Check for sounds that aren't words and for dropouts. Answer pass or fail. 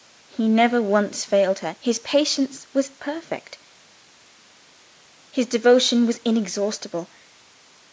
pass